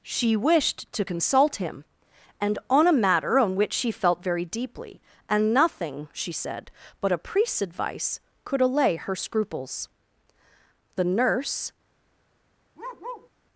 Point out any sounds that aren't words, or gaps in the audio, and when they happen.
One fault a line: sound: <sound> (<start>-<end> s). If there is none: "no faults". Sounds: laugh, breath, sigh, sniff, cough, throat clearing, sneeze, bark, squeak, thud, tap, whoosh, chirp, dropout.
sound: bark (12.8-13.3 s)